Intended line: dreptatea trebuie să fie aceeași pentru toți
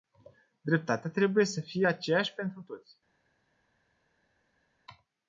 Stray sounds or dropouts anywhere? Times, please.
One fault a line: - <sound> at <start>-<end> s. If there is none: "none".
none